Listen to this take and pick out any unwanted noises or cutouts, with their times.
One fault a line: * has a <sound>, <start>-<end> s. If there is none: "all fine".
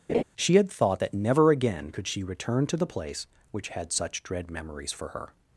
* has a laugh, 0.1-0.2 s